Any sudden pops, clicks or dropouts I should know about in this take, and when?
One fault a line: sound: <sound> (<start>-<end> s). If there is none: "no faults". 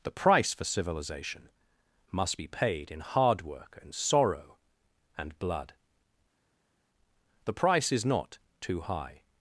no faults